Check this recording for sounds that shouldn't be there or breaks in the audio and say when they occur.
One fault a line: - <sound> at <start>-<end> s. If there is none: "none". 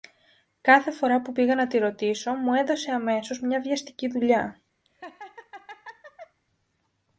- laugh at 4.9-6.4 s